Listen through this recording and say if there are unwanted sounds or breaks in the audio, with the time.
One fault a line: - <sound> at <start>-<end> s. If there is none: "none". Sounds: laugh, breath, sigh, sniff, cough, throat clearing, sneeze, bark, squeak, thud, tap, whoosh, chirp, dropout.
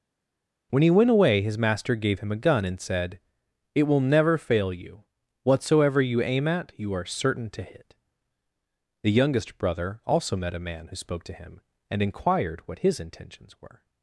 none